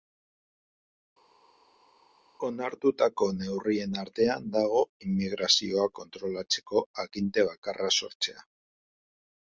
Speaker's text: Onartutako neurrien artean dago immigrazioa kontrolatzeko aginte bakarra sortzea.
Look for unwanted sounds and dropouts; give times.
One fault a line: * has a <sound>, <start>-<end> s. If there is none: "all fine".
all fine